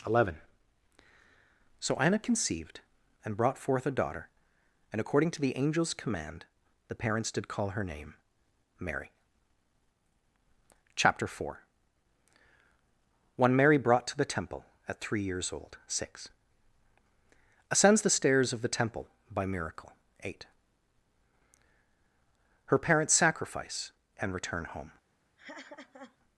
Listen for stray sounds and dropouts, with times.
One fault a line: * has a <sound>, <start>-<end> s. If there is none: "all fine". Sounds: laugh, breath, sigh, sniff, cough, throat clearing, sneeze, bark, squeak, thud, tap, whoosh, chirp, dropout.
* has a laugh, 25.4-26.2 s